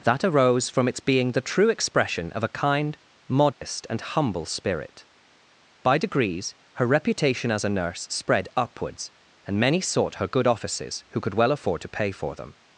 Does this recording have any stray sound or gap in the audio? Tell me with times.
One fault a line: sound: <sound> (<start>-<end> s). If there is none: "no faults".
sound: dropout (3.5-3.6 s)